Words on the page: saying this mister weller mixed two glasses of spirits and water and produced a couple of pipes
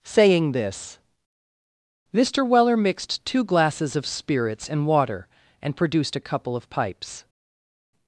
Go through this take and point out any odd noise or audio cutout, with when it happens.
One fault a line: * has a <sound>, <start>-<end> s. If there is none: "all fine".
all fine